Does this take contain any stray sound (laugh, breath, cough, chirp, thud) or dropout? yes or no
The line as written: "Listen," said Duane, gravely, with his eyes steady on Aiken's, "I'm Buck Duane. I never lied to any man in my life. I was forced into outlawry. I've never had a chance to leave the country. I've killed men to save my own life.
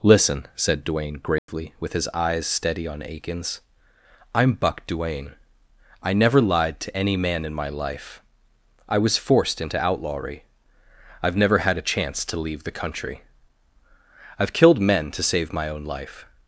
yes